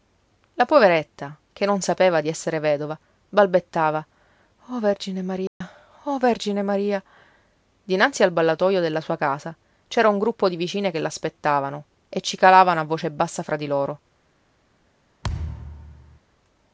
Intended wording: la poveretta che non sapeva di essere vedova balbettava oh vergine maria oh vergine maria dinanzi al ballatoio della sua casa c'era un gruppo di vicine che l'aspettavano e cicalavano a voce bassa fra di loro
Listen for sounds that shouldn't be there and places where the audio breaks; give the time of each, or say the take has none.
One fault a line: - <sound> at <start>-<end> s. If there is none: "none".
- dropout at 5.5-5.6 s
- thud at 15.2-16.2 s